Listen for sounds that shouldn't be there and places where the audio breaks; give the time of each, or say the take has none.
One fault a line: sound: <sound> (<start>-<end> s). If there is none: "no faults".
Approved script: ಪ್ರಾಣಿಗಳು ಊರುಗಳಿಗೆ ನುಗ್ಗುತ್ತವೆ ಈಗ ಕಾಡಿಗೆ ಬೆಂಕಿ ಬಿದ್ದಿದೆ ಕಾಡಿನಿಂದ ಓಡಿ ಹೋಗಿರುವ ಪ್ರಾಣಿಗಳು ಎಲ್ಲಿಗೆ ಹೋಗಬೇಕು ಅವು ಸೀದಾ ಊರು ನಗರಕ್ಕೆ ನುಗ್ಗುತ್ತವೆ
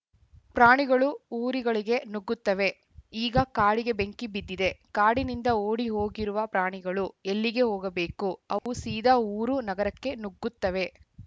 sound: dropout (8.6-8.7 s)